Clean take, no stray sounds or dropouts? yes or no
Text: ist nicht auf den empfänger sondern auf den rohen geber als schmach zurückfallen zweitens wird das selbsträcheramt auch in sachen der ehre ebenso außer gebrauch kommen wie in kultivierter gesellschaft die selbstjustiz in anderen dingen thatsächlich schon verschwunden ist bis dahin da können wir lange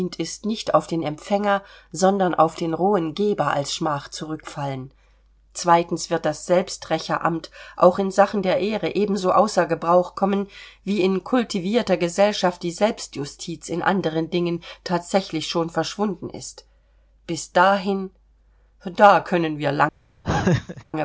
no